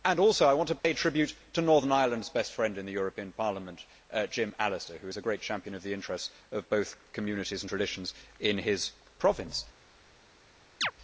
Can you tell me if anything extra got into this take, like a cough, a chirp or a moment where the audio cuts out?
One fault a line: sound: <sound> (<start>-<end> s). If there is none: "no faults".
sound: dropout (0.8-0.8 s)
sound: chirp (10.8-10.9 s)